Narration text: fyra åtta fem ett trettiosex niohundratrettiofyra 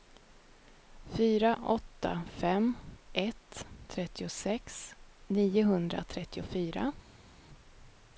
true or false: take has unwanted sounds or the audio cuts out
false